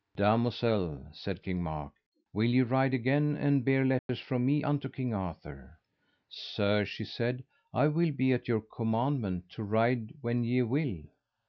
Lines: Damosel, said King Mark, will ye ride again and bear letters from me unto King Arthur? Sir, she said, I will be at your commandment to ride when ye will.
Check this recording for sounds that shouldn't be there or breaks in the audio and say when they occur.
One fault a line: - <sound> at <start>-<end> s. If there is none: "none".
- dropout at 4.0-4.1 s